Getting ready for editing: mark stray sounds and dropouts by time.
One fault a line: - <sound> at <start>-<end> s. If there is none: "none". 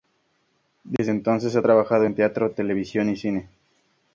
- dropout at 1.0-1.0 s